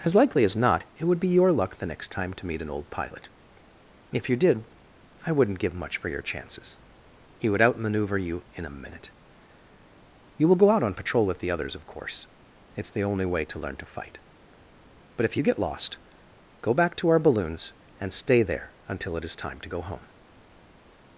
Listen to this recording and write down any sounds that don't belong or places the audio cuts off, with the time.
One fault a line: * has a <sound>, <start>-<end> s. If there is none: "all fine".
all fine